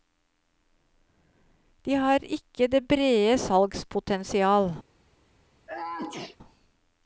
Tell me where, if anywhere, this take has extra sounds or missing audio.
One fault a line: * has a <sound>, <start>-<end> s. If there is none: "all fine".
* has a sneeze, 5.7-6.4 s